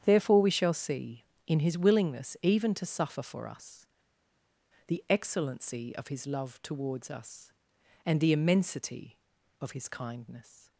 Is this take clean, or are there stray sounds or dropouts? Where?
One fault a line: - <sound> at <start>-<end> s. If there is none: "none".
none